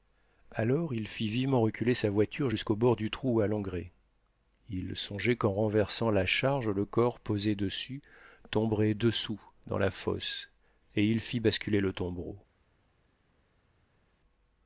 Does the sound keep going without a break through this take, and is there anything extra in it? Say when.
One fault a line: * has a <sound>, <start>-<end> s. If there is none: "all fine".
all fine